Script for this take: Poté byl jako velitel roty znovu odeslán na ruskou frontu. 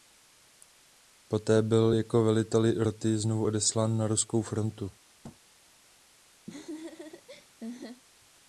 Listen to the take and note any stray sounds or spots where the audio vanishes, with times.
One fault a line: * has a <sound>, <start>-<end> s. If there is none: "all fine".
* has a thud, 5.2-5.4 s
* has a laugh, 6.5-8.0 s